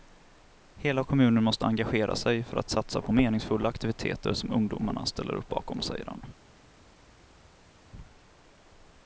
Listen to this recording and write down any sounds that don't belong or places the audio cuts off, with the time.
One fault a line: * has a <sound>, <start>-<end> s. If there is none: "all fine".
all fine